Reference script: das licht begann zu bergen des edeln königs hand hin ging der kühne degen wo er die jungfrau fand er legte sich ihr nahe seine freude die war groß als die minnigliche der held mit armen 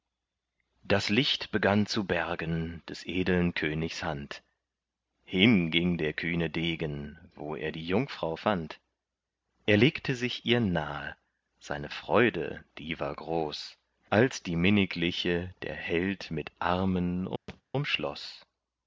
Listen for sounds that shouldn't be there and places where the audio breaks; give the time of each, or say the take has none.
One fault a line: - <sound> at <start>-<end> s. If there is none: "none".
- thud at 17.5-17.6 s